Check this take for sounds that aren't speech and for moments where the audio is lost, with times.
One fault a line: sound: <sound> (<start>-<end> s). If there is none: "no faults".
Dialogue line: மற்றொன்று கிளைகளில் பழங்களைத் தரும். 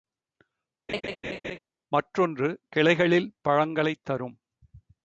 sound: laugh (0.9-1.6 s)